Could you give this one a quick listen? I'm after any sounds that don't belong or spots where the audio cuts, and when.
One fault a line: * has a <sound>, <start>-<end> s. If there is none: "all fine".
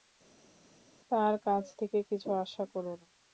all fine